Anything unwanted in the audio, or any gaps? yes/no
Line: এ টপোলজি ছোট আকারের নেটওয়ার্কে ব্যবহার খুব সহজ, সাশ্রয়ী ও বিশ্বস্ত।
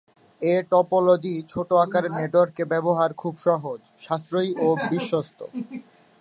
no